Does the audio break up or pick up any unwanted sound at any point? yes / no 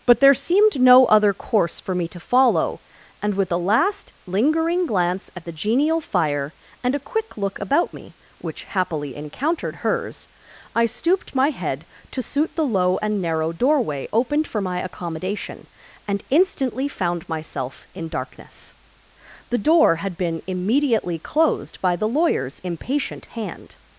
no